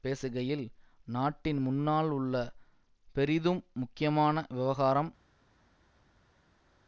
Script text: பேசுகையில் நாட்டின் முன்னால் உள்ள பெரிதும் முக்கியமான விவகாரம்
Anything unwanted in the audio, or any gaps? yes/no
no